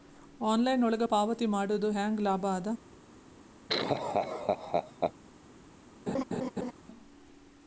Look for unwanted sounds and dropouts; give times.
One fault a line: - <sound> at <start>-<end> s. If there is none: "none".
- laugh at 3.7-5.1 s
- laugh at 6.1-6.7 s